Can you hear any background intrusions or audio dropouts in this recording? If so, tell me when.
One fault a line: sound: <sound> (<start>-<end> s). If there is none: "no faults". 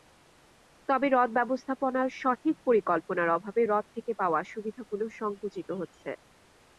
no faults